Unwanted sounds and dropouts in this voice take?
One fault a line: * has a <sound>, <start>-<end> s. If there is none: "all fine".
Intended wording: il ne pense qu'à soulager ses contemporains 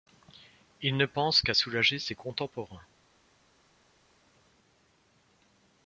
all fine